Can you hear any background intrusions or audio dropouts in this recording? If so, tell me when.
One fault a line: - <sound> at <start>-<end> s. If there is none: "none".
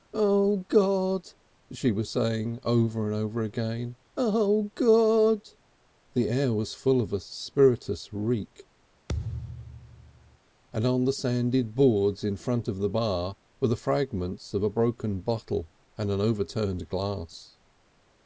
- thud at 9.1-10.4 s